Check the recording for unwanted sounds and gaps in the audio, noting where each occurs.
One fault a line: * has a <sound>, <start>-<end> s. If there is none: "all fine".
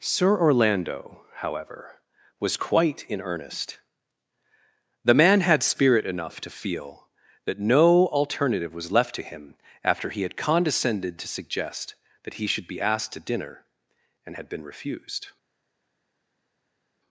all fine